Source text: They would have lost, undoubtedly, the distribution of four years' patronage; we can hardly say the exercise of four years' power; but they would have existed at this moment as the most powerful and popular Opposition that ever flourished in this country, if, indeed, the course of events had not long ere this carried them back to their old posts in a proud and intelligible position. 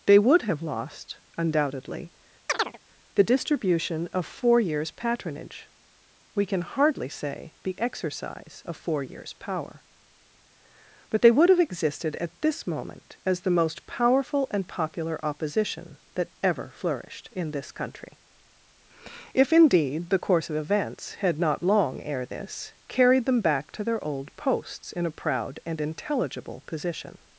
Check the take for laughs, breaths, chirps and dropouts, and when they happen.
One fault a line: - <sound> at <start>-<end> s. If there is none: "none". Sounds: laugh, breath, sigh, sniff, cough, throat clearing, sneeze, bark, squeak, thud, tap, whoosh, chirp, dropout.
- chirp at 2.5-2.8 s